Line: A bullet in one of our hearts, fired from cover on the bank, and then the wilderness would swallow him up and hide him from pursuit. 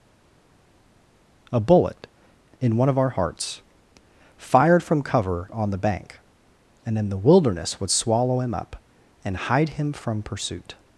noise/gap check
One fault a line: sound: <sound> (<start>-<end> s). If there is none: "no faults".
no faults